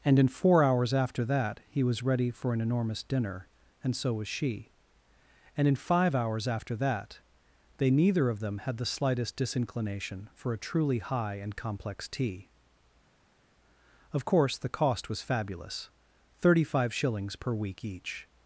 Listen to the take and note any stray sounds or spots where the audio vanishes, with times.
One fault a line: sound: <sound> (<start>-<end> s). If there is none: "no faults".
no faults